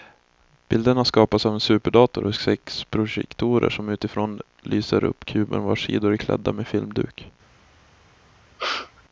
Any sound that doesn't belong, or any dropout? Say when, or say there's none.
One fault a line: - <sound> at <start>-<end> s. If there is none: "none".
- sneeze at 8.6-9.0 s